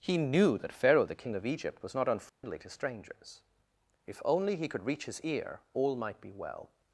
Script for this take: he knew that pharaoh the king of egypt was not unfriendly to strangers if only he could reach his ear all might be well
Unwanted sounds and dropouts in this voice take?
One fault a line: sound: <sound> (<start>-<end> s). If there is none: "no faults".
sound: dropout (2.3-2.4 s)